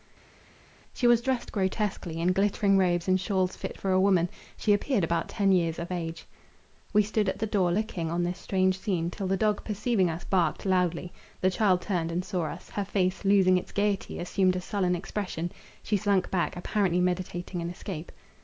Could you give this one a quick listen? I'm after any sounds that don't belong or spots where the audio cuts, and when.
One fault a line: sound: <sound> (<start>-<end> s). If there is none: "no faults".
no faults